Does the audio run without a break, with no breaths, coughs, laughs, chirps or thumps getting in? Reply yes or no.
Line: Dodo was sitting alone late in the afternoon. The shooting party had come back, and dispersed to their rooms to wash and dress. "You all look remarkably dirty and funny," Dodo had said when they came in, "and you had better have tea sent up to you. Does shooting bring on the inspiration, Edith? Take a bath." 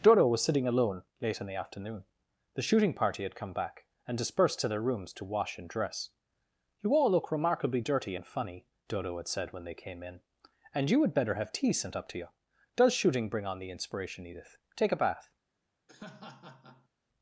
no